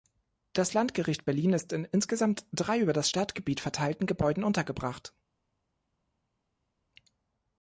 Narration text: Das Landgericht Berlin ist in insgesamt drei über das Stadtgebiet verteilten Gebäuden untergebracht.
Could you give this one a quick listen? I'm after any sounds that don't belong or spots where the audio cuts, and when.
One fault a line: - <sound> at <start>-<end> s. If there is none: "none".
none